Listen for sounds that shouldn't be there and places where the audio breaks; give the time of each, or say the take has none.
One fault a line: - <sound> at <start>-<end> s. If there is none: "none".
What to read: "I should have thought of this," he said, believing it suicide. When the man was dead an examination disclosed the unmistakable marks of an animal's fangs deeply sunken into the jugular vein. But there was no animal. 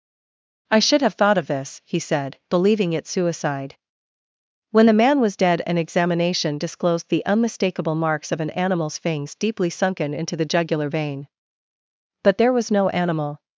none